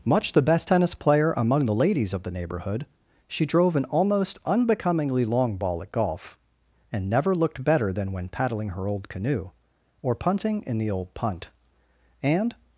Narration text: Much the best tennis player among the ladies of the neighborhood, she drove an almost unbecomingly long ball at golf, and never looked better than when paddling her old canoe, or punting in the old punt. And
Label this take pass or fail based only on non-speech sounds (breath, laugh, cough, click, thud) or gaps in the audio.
pass